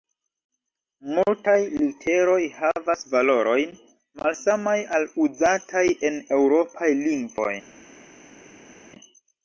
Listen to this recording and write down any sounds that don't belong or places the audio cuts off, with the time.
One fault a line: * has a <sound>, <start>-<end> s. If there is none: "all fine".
all fine